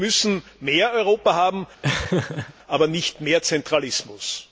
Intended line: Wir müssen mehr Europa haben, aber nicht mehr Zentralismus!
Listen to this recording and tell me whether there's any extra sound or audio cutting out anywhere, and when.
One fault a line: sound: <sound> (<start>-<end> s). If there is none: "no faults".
sound: laugh (1.8-2.5 s)